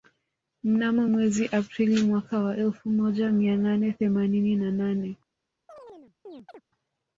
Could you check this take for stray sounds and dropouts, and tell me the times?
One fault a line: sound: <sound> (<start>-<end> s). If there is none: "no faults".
sound: chirp (5.7-6.6 s)